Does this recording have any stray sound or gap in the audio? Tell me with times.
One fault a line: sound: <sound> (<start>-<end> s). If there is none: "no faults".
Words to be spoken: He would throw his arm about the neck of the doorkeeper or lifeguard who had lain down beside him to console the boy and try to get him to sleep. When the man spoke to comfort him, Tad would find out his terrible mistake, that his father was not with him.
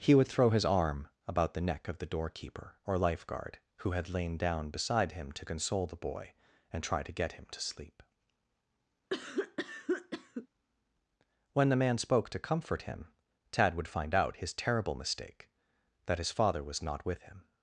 sound: cough (9.1-10.5 s)